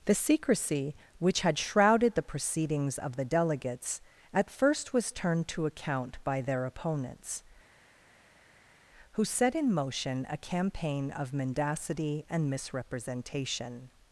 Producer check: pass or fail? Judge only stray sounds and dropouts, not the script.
pass